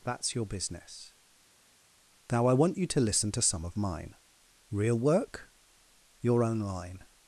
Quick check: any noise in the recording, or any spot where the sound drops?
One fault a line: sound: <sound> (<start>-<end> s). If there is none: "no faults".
no faults